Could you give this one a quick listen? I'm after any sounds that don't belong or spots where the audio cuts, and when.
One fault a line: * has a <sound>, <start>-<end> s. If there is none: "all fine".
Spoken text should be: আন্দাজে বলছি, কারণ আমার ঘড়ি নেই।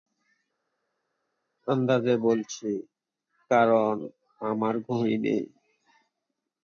all fine